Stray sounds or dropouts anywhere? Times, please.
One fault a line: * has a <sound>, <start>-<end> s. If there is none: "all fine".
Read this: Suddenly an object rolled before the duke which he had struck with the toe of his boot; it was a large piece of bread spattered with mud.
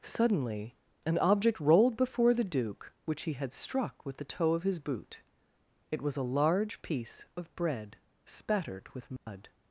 * has a dropout, 9.2-9.3 s